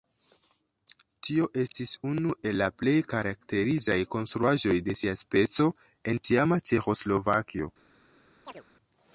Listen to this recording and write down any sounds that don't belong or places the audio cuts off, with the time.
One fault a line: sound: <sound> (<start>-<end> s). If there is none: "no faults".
sound: chirp (8.4-8.6 s)